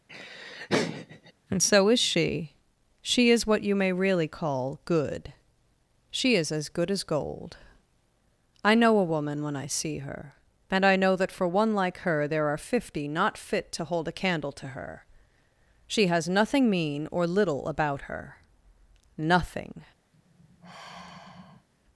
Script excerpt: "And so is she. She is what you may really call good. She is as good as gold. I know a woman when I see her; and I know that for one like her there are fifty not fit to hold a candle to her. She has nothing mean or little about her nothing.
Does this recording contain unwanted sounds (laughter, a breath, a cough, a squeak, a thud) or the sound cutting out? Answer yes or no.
yes